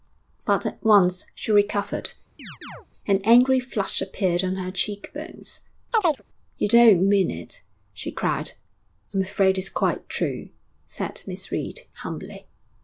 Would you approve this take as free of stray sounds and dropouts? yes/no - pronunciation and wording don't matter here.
no